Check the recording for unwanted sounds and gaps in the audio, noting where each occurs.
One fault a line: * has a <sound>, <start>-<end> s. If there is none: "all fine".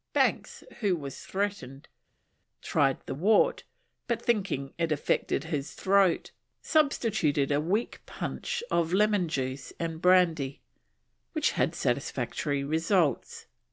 all fine